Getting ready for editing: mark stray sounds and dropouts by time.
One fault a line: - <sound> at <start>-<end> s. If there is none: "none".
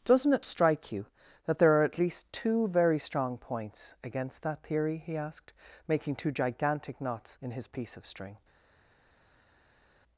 none